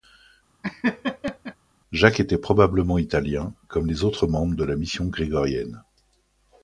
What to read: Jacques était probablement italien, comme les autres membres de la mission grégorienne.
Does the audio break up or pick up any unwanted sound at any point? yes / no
yes